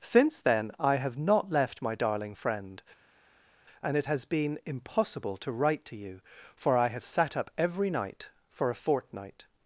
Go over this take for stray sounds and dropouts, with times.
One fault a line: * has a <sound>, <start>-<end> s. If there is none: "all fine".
all fine